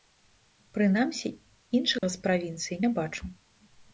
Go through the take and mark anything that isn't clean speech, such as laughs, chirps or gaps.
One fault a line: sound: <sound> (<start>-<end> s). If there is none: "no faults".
sound: dropout (2.0-2.0 s)